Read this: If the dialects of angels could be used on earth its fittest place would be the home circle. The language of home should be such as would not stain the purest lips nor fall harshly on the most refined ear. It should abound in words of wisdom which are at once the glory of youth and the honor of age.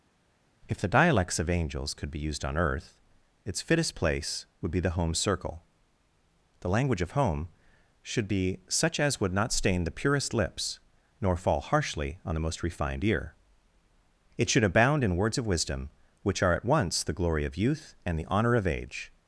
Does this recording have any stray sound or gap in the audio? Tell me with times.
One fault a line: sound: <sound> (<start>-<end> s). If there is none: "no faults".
no faults